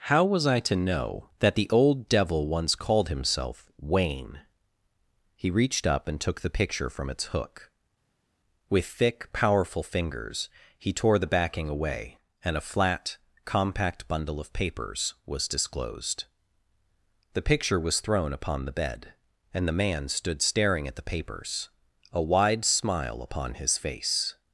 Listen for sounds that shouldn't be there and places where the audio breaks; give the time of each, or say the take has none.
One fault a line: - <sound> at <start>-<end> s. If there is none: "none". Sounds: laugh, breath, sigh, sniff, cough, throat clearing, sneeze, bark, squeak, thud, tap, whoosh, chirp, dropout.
none